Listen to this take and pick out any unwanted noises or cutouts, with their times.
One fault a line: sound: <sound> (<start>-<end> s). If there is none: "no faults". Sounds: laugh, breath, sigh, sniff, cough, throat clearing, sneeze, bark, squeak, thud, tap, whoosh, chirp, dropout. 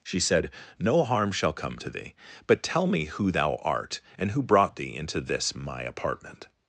no faults